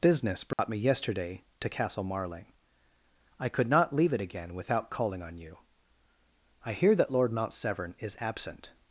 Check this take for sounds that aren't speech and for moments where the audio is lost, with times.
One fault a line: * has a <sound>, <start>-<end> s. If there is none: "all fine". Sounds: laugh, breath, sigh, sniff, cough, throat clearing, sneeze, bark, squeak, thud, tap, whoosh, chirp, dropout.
* has a dropout, 0.5-0.6 s